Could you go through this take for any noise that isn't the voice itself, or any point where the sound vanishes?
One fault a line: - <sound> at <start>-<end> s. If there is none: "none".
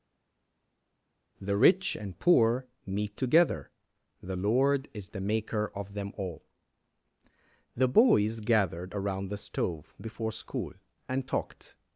none